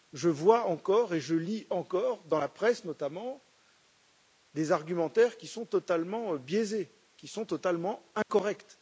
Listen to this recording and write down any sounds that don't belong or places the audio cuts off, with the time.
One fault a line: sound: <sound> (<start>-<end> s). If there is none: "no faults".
sound: dropout (8.2-8.3 s)